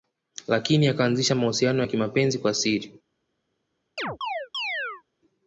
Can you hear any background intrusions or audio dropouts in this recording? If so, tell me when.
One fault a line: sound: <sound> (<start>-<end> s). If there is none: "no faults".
sound: chirp (4.0-5.0 s)